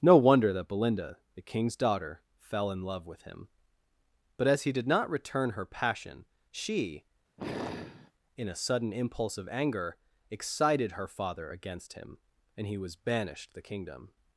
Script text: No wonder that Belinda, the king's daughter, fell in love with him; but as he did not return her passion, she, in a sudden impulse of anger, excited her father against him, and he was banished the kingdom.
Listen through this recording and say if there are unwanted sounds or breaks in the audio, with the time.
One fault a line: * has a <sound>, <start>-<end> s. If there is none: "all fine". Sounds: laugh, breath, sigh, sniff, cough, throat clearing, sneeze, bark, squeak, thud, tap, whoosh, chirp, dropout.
* has a sigh, 7.4-8.1 s